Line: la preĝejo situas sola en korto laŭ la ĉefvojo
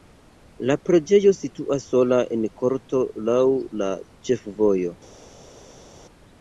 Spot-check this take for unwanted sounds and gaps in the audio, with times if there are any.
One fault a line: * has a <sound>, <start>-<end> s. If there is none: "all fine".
all fine